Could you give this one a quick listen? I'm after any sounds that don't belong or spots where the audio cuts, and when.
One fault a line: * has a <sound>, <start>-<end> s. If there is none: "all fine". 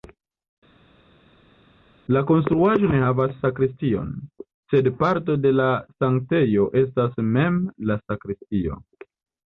all fine